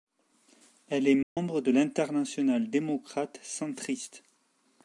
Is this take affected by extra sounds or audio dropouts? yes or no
yes